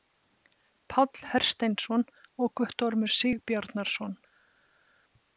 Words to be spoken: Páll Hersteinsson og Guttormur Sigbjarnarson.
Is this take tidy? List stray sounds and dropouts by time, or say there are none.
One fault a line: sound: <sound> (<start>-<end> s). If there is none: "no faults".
no faults